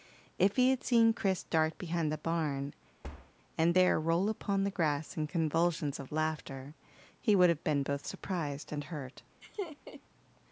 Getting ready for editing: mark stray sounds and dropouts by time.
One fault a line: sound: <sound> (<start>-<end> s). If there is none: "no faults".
sound: thud (3.0-3.3 s)
sound: laugh (9.4-10.0 s)